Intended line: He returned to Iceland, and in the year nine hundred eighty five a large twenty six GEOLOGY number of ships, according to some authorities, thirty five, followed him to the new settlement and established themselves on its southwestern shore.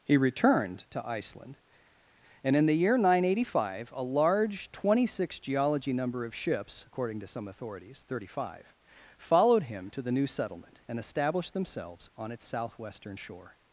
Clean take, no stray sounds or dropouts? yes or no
yes